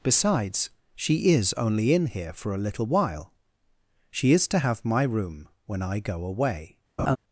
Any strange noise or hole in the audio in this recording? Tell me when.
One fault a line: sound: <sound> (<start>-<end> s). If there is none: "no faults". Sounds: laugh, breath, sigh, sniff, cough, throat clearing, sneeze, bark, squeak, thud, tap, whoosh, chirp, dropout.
sound: laugh (7.0-7.2 s)